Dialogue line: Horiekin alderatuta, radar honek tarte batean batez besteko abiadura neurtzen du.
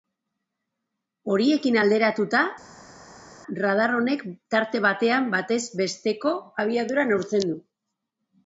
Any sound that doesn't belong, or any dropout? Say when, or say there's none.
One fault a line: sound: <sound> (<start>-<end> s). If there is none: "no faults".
no faults